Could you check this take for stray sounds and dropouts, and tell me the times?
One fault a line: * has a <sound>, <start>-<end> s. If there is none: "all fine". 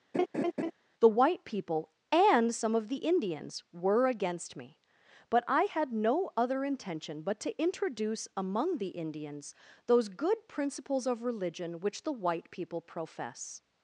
* has a laugh, 0.1-0.7 s